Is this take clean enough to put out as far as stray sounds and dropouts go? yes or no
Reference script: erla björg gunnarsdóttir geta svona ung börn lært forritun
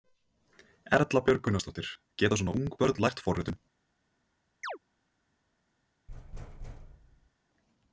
no